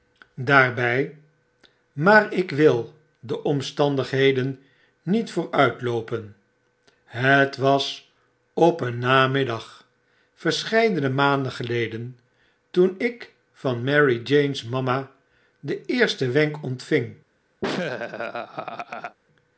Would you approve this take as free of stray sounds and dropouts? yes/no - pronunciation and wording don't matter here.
no